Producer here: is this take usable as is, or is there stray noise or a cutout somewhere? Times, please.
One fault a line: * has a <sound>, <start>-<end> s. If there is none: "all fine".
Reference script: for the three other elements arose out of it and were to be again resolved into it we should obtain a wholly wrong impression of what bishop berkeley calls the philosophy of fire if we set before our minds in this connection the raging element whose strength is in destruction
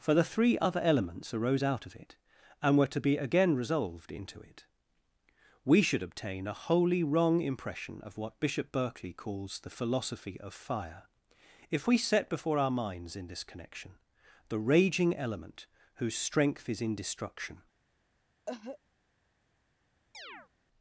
* has a cough, 18.5-18.8 s
* has a chirp, 20.1-20.5 s